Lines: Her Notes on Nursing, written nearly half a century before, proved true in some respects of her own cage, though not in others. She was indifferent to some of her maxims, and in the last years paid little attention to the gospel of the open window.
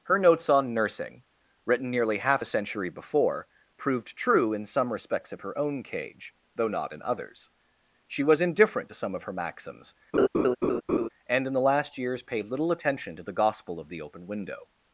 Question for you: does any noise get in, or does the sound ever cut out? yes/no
yes